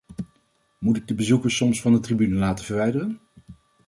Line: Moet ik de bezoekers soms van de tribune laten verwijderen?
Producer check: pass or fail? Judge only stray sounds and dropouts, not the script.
pass